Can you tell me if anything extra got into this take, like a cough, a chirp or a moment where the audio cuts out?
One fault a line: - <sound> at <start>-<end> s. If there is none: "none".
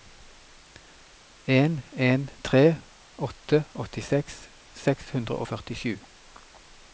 none